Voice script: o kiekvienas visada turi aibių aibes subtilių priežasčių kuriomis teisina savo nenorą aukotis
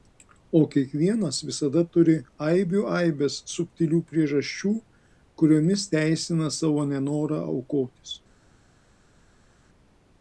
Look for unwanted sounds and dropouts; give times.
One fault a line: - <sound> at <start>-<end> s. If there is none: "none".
none